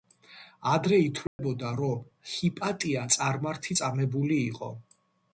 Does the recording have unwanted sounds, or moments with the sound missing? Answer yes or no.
yes